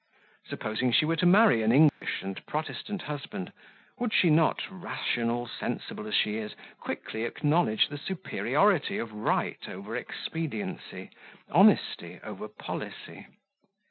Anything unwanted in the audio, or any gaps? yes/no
yes